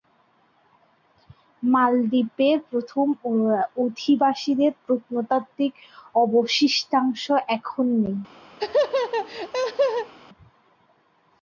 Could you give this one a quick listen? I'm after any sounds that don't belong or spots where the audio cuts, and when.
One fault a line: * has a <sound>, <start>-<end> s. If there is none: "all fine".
* has a laugh, 8.6-10.1 s